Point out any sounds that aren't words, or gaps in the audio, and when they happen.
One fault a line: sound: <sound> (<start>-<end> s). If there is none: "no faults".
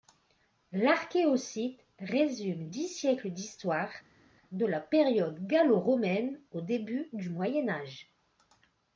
no faults